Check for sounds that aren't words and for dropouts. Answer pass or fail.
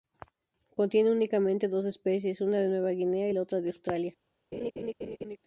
fail